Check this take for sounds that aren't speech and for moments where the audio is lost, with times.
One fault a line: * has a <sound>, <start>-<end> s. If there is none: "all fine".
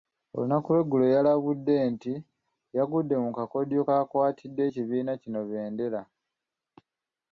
all fine